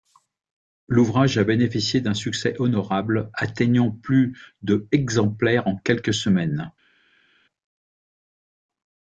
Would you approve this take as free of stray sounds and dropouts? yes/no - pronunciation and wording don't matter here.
yes